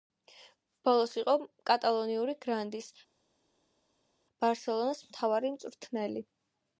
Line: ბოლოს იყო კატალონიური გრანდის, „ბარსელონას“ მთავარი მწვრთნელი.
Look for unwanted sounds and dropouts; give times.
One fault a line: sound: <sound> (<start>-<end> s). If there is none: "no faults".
no faults